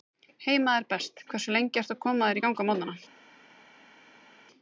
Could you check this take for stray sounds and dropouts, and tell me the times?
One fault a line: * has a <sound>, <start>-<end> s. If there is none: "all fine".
all fine